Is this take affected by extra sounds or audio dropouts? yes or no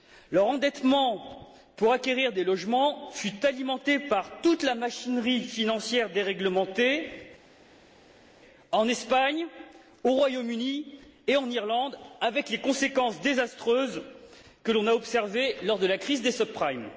no